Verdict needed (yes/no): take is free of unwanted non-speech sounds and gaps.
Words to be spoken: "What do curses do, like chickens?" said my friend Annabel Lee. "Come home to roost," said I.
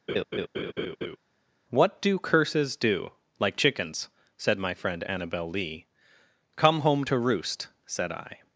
no